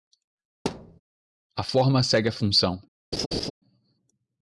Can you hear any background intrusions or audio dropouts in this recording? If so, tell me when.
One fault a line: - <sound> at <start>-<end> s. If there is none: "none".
- thud at 0.7-1.0 s
- laugh at 3.1-3.5 s